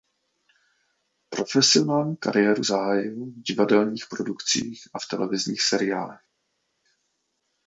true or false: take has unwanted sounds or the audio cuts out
false